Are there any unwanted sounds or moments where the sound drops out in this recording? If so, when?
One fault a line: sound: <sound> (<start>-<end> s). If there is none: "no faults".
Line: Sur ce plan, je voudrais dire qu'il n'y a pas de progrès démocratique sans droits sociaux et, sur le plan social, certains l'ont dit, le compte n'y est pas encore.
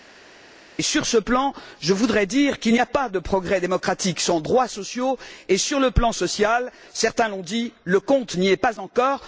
no faults